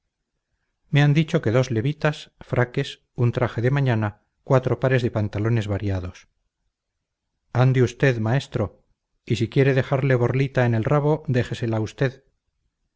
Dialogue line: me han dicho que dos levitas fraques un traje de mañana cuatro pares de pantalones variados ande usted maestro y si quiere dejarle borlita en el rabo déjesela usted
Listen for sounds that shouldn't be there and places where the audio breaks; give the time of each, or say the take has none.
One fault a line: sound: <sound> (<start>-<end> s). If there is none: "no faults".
no faults